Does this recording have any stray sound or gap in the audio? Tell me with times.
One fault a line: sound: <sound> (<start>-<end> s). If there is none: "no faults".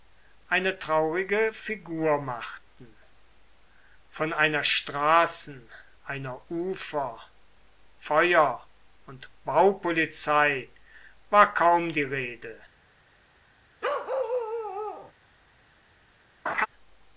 sound: bark (13.8-15.1 s)
sound: laugh (16.5-16.7 s)